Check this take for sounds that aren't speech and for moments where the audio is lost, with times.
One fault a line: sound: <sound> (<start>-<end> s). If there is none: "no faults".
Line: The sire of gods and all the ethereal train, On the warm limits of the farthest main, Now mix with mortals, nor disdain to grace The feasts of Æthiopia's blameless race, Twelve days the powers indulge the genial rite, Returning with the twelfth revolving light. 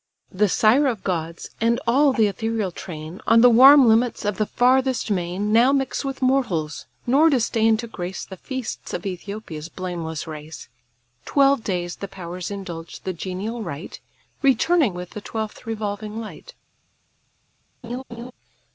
sound: laugh (17.8-18.3 s)